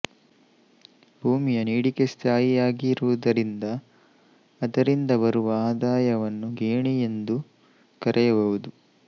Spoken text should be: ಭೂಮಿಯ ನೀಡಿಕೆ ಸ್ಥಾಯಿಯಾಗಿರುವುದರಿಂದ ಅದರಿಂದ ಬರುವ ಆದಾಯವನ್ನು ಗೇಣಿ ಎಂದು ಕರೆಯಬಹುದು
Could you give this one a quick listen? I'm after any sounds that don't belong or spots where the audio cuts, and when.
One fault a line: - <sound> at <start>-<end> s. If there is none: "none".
none